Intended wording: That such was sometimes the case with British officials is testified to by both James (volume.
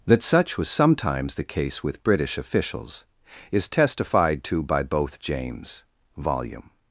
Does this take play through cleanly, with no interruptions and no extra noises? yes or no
yes